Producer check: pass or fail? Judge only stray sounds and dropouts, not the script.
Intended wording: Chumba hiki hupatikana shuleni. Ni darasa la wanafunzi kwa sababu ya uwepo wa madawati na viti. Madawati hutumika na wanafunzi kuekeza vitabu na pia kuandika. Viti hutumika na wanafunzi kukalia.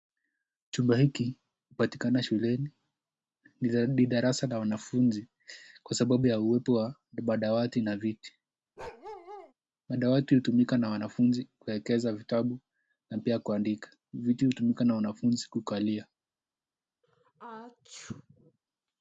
fail